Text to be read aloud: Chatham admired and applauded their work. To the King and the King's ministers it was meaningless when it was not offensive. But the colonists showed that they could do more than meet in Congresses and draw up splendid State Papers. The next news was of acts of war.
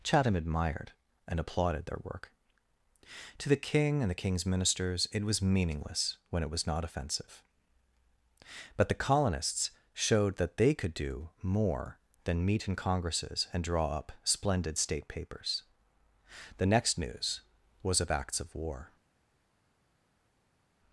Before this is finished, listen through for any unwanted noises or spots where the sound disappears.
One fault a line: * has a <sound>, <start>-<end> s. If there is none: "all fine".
all fine